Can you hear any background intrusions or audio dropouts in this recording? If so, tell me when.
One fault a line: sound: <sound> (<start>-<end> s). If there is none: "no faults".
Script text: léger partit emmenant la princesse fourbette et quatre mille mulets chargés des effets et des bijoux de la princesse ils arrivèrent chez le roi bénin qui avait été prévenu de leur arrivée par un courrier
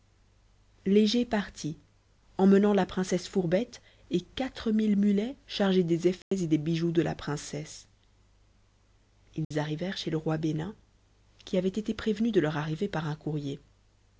sound: dropout (6.2-6.3 s)
sound: dropout (9.4-9.5 s)